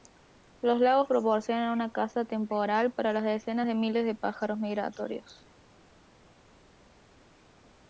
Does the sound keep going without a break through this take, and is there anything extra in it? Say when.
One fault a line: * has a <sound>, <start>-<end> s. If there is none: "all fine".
all fine